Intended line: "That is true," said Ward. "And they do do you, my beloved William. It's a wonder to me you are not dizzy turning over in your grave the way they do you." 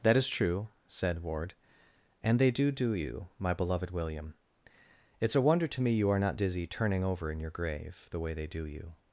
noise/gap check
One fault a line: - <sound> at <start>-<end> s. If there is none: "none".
none